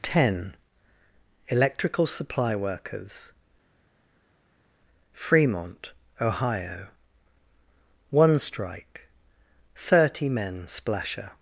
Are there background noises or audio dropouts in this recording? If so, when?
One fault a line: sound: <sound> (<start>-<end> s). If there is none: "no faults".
no faults